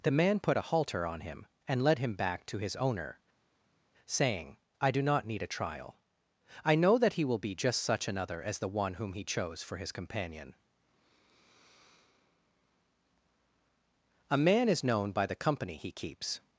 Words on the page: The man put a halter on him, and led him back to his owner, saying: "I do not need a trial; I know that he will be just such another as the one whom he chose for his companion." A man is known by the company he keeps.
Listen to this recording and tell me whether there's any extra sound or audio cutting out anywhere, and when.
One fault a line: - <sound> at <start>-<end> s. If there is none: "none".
none